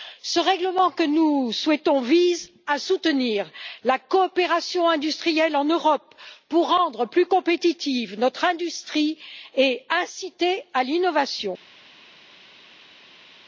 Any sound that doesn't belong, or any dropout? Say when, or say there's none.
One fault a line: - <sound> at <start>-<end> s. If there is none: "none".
none